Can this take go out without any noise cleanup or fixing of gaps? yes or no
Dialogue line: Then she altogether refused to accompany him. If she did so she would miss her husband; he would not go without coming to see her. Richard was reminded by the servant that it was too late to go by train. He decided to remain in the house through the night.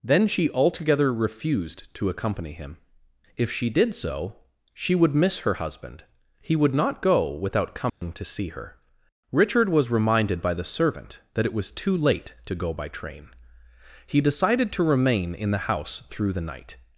no